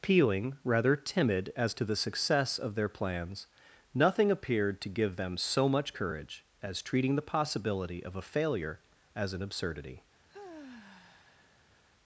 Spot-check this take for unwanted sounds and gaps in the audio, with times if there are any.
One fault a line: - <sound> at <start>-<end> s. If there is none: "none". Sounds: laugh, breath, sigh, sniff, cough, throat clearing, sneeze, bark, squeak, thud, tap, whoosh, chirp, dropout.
- sigh at 10.3-11.8 s